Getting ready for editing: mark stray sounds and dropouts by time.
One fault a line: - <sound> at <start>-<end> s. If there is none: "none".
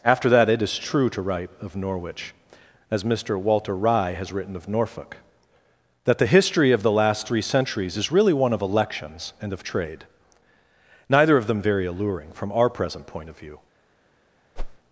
- whoosh at 14.6-14.8 s